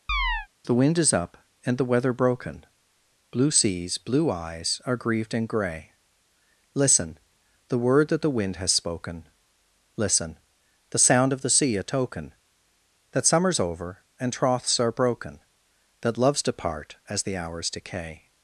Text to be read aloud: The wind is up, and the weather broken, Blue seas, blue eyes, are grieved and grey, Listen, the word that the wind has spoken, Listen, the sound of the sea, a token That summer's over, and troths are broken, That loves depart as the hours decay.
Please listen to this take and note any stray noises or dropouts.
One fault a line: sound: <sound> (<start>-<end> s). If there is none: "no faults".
sound: chirp (0.1-0.5 s)